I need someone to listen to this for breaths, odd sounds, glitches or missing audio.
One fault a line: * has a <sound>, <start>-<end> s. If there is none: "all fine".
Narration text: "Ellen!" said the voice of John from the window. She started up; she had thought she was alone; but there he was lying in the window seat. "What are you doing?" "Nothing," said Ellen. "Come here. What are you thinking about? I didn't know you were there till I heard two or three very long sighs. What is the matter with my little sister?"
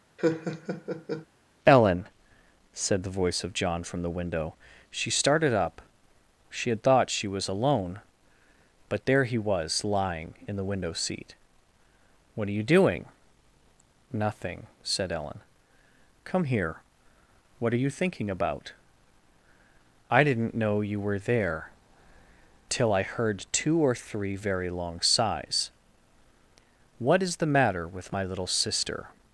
* has a laugh, 0.2-1.3 s